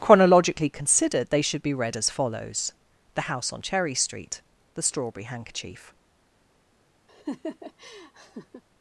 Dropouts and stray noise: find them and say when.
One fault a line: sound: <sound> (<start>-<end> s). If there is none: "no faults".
sound: laugh (7.1-8.6 s)